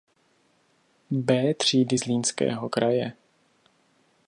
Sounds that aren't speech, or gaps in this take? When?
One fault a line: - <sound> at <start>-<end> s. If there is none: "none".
none